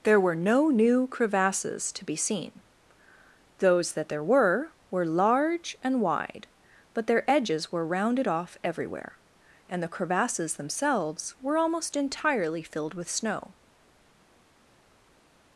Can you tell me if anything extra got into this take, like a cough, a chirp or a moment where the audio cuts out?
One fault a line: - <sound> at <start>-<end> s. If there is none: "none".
none